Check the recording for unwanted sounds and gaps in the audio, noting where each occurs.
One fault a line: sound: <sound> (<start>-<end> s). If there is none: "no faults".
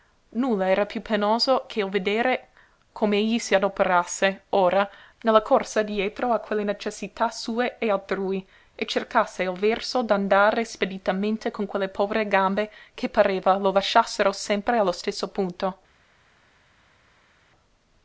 no faults